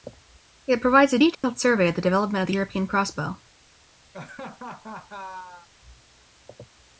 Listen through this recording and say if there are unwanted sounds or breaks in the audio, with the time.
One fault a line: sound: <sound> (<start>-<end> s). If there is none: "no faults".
sound: dropout (1.3-1.4 s)
sound: laugh (4.1-5.7 s)